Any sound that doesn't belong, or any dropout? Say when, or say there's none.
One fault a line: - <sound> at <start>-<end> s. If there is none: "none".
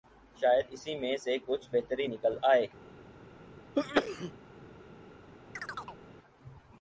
- sneeze at 3.7-4.3 s
- chirp at 5.6-6.0 s